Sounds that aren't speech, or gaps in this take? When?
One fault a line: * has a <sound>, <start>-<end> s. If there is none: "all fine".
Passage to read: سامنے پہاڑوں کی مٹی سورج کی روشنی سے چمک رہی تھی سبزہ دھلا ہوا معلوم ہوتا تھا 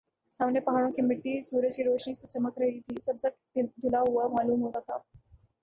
all fine